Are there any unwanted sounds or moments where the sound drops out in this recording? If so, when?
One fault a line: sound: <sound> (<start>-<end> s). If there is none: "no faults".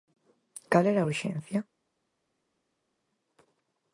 no faults